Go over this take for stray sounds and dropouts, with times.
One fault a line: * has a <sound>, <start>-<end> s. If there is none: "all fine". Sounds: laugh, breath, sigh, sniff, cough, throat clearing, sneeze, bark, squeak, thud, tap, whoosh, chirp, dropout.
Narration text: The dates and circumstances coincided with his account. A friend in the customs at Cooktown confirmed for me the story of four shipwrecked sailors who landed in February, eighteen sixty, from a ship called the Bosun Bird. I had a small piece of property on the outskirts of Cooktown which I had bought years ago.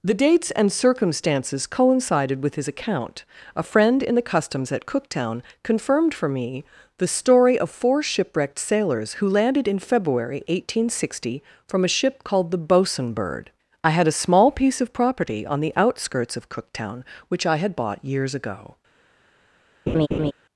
* has a laugh, 19.9-20.3 s